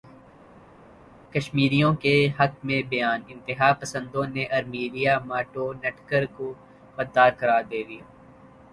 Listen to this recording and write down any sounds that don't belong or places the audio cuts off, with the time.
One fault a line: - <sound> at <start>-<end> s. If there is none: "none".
none